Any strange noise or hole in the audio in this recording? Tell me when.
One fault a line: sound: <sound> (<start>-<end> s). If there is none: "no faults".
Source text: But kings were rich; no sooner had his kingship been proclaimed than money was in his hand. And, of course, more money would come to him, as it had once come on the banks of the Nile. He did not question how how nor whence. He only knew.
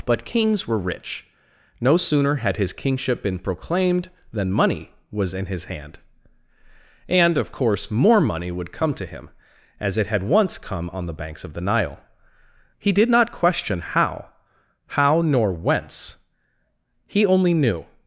no faults